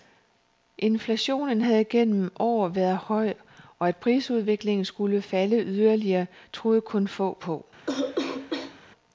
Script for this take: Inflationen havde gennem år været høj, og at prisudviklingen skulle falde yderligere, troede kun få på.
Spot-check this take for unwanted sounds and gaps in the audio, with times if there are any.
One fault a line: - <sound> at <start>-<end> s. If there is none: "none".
- cough at 7.8-8.8 s